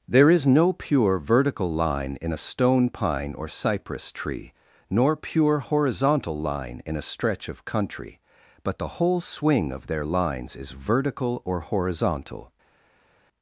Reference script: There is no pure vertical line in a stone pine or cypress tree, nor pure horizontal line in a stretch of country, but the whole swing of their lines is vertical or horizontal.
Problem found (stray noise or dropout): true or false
false